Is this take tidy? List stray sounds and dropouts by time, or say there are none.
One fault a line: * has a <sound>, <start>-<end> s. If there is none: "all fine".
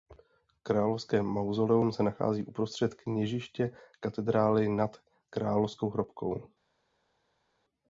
all fine